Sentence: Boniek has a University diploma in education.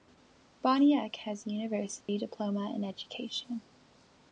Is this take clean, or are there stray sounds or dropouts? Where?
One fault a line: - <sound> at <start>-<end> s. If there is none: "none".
- dropout at 2.0-2.1 s